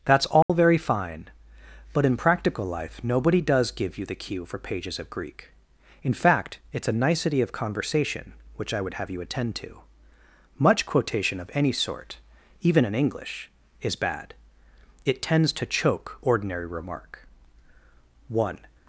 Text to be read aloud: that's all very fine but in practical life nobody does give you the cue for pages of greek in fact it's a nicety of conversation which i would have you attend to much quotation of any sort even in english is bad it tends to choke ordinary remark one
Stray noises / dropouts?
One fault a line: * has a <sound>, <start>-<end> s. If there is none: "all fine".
* has a dropout, 0.4-0.5 s